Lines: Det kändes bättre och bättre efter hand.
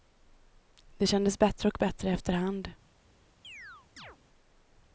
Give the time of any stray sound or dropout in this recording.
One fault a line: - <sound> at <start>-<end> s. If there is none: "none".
- chirp at 3.4-4.2 s